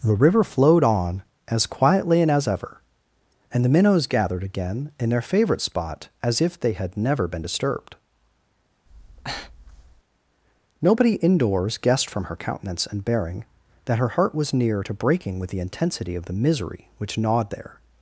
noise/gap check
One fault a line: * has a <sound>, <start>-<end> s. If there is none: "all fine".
* has a breath, 8.9-10.0 s